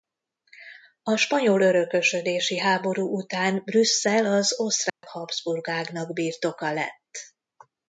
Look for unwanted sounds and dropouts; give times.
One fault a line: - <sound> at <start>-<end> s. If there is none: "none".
- dropout at 4.9-5.0 s